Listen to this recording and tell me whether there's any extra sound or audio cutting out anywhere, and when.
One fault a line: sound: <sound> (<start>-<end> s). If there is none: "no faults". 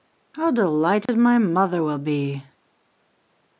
sound: dropout (1.1-1.1 s)